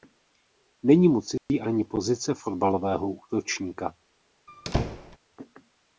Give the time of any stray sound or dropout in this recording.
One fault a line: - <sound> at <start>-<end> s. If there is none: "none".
- dropout at 1.4-1.5 s
- squeak at 4.5-5.2 s